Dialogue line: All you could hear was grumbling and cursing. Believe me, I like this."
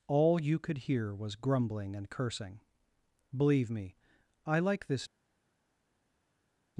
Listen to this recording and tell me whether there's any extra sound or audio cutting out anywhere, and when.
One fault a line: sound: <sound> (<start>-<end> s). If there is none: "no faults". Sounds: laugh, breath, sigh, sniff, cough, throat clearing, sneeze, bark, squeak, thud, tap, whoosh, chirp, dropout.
no faults